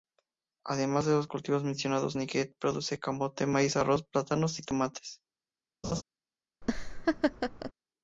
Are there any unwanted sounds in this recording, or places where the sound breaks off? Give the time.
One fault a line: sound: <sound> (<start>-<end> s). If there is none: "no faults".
sound: laugh (5.8-6.0 s)
sound: laugh (6.6-7.7 s)